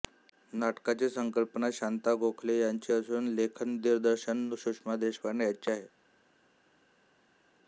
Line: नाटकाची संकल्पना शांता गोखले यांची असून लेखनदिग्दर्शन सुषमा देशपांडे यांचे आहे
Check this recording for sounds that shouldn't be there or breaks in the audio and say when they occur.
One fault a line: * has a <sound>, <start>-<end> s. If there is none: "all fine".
all fine